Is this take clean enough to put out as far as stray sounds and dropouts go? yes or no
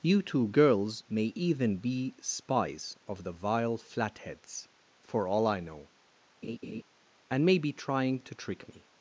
no